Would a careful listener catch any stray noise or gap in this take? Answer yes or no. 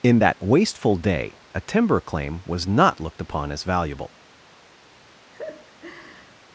yes